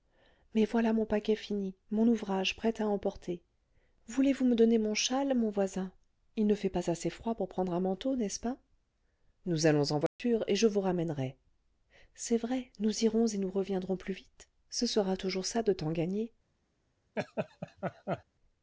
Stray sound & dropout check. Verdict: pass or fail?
fail